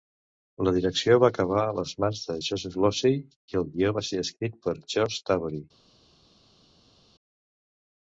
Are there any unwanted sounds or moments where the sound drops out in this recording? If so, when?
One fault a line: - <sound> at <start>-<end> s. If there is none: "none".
none